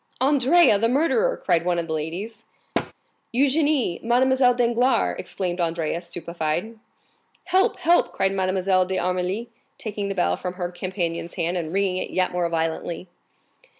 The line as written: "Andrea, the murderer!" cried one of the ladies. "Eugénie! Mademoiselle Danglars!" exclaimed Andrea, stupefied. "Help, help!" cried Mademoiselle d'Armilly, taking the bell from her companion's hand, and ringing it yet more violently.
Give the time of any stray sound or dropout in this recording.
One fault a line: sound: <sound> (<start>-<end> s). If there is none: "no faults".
sound: thud (2.7-2.9 s)